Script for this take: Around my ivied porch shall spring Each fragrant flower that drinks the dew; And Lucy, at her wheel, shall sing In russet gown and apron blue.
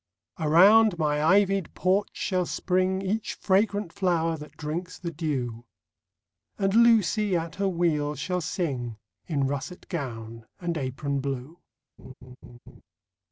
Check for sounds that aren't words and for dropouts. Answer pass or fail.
fail